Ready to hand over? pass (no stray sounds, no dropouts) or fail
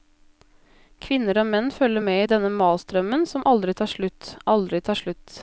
pass